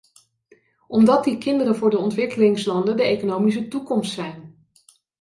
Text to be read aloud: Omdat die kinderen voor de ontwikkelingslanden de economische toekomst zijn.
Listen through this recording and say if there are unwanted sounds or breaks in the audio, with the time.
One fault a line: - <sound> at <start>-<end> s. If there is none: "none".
none